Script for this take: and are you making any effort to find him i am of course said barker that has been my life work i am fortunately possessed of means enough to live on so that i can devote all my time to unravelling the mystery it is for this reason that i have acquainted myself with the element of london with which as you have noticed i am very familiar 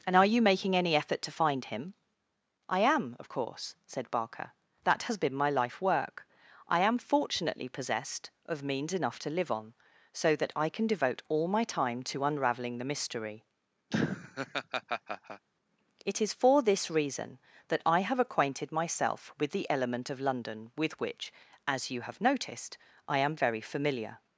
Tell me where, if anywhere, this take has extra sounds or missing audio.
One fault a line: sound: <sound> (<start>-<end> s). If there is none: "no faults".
sound: laugh (13.9-15.5 s)